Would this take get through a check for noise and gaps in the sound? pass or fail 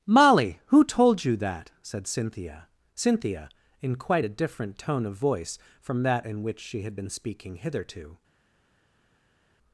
pass